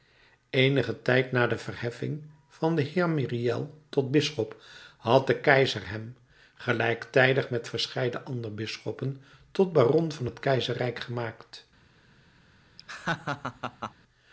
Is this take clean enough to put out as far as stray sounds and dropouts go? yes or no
no